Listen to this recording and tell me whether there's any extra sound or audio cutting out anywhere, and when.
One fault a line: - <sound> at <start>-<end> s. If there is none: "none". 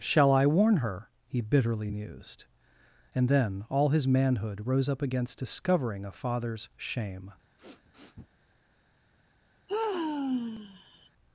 - sniff at 7.6-8.3 s
- sigh at 9.7-11.1 s